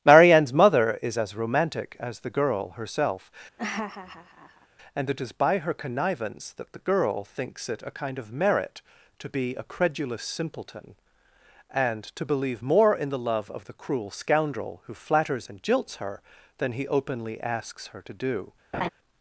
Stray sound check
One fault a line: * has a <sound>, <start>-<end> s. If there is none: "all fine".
* has a laugh, 3.6-4.7 s
* has a laugh, 18.7-18.9 s